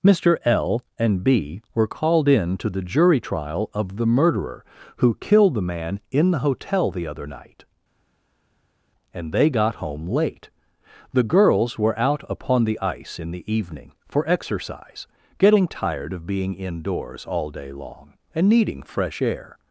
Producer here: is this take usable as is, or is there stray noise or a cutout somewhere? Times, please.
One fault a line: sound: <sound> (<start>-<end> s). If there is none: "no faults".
no faults